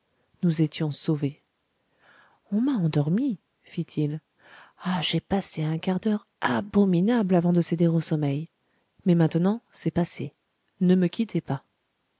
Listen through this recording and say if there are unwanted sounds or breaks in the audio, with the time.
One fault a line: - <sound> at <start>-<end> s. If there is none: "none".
none